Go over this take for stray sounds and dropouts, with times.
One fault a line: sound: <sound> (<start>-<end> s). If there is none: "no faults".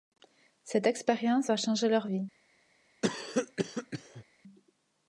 sound: cough (3.0-4.2 s)